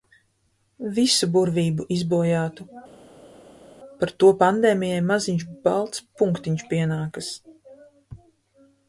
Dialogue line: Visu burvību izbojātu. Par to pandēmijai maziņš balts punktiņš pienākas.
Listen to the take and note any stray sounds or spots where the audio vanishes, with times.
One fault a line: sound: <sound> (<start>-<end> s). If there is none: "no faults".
no faults